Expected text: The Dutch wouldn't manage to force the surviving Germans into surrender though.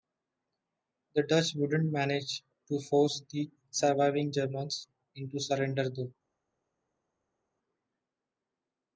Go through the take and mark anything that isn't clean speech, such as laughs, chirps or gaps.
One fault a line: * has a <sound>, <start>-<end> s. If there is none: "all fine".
all fine